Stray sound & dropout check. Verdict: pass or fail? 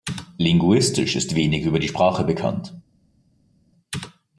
pass